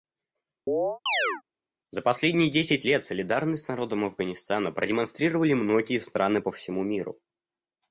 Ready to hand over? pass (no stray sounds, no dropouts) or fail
fail